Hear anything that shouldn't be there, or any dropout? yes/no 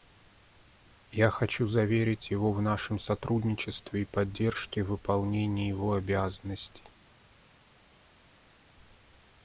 no